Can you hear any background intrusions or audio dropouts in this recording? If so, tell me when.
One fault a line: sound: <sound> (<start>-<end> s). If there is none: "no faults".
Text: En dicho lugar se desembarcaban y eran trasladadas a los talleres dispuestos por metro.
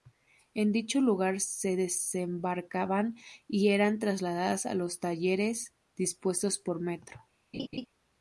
sound: laugh (7.5-7.9 s)